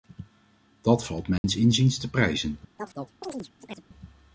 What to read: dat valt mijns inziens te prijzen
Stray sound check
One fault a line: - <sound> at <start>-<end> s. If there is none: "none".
- dropout at 1.4-1.4 s
- chirp at 2.8-3.9 s